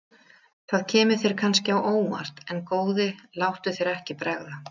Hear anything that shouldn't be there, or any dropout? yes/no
no